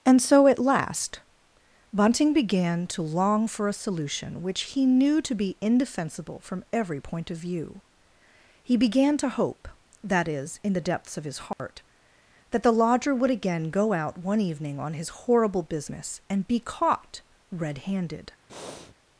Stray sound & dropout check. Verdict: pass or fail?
fail